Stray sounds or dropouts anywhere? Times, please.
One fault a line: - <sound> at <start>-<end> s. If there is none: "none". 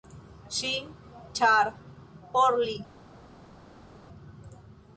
none